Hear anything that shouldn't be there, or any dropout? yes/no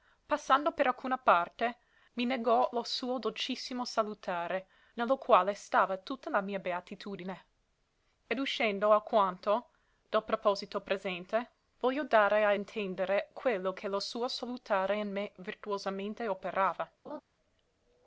yes